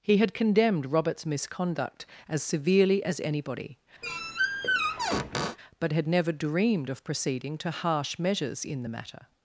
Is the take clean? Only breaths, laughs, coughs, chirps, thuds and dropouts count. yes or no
no